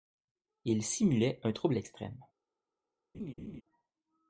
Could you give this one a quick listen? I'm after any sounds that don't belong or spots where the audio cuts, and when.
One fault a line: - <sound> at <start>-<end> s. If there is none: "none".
- laugh at 3.1-3.6 s